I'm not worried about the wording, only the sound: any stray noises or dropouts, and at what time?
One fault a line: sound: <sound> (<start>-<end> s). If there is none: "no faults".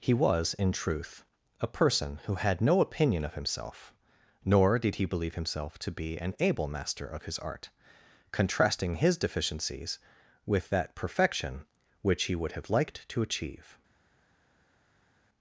no faults